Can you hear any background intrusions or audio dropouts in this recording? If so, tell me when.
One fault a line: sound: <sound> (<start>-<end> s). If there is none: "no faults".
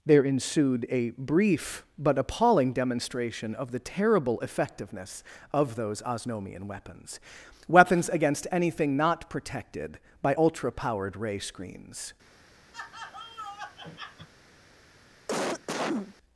sound: laugh (12.7-14.3 s)
sound: cough (15.3-16.1 s)